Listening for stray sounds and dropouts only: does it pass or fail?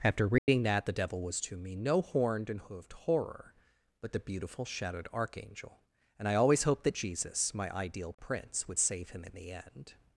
fail